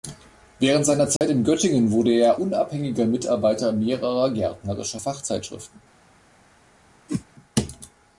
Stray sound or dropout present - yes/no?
yes